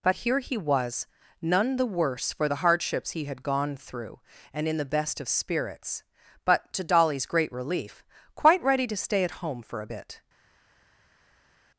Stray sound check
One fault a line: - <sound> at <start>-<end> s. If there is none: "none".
none